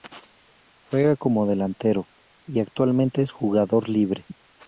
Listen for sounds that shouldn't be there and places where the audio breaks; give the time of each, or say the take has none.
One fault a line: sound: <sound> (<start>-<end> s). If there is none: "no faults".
no faults